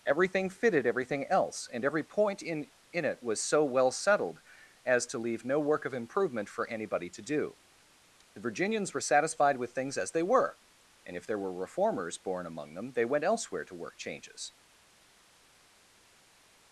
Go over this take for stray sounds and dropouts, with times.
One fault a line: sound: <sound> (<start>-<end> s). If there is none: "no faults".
no faults